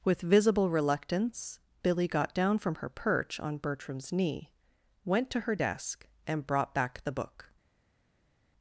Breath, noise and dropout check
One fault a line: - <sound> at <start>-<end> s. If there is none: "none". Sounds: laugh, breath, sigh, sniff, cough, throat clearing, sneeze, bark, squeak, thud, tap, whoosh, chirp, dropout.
none